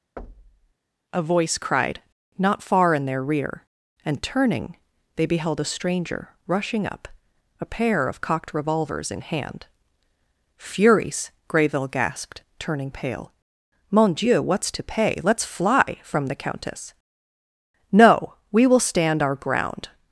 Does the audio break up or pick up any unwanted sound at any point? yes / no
yes